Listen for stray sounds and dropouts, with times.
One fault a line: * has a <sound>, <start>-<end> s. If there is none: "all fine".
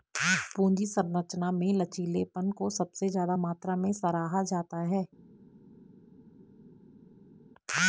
all fine